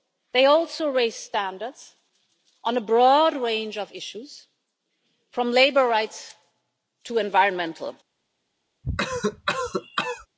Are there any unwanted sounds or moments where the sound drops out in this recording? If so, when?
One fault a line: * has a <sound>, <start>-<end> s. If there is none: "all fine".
* has a cough, 8.8-10.3 s